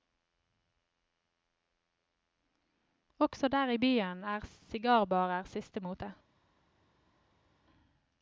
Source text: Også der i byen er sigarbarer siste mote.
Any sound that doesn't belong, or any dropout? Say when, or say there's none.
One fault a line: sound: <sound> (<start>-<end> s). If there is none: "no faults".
no faults